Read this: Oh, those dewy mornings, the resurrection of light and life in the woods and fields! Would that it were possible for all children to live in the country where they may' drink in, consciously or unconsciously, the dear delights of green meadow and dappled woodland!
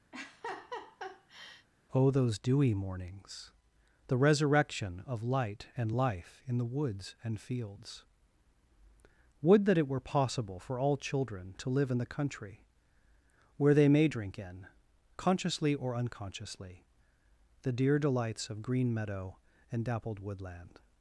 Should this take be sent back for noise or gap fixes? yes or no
yes